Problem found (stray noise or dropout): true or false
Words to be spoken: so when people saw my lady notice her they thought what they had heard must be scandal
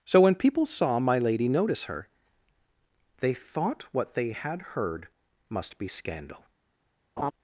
true